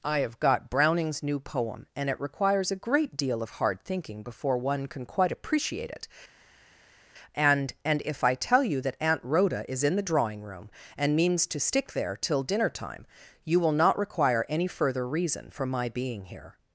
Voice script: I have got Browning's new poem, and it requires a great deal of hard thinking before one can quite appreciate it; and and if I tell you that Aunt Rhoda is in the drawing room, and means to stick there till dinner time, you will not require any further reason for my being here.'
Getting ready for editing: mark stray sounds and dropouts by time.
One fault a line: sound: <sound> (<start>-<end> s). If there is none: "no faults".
no faults